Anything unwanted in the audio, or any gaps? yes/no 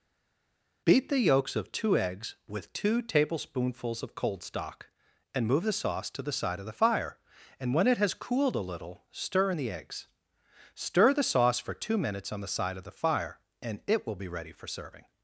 no